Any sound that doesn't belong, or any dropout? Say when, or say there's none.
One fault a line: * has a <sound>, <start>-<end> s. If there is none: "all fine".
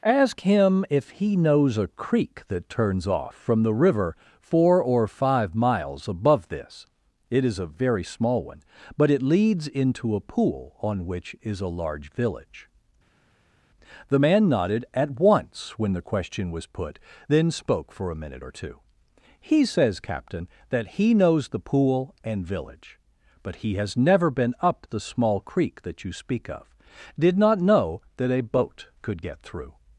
all fine